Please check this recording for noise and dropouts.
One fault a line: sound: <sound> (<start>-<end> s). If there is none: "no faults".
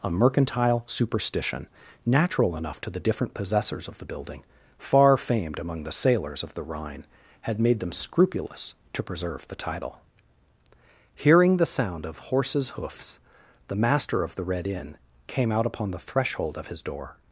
no faults